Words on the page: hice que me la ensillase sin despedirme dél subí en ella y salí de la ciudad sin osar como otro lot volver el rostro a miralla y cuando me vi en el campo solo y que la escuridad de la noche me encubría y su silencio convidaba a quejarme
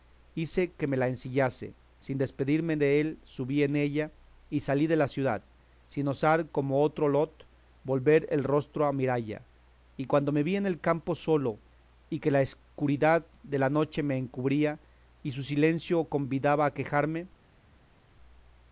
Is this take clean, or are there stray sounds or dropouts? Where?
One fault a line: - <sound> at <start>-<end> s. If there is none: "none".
none